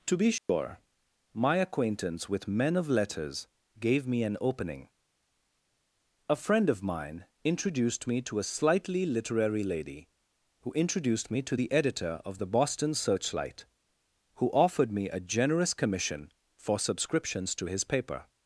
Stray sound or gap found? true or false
true